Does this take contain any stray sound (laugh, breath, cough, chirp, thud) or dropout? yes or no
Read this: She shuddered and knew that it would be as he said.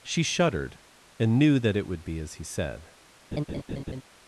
yes